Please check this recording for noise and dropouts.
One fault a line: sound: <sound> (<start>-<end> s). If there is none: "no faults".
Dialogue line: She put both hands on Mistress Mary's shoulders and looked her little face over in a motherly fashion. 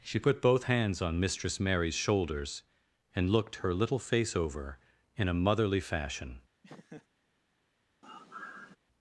sound: laugh (6.6-7.1 s)
sound: sigh (8.0-8.8 s)